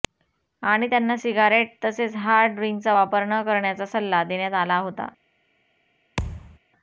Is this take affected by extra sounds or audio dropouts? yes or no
yes